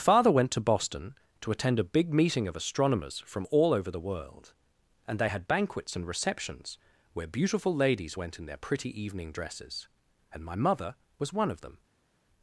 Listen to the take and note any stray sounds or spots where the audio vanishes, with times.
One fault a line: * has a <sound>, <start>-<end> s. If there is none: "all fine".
all fine